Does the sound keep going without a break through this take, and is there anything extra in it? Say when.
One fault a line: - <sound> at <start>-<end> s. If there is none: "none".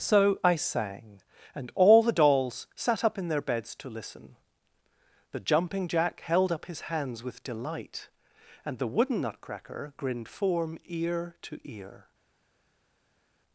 none